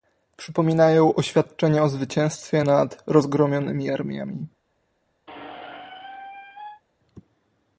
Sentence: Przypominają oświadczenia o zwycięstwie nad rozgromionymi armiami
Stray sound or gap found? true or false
true